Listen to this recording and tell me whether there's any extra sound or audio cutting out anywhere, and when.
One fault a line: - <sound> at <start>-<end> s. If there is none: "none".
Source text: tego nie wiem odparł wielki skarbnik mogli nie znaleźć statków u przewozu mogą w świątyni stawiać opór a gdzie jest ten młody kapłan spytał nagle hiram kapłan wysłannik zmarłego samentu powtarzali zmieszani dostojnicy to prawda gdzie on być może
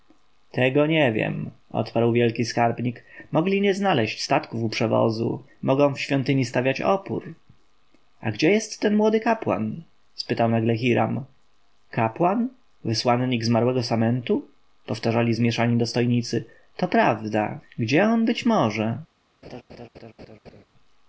- laugh at 19.4-20.6 s